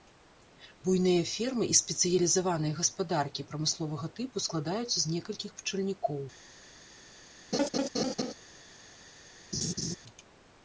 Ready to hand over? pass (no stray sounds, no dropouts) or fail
fail